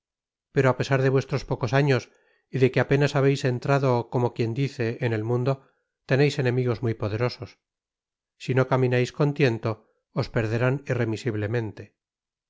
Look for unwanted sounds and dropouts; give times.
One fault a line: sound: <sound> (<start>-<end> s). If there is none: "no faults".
no faults